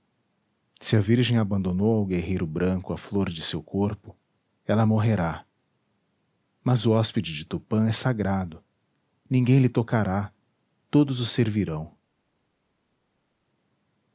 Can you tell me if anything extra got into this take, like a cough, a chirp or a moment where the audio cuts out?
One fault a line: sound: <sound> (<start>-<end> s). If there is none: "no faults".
no faults